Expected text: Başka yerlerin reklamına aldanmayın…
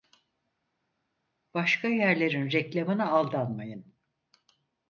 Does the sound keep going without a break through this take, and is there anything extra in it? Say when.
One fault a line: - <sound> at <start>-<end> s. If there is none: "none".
none